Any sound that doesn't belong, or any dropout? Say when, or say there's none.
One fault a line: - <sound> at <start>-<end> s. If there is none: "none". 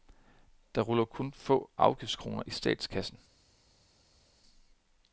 none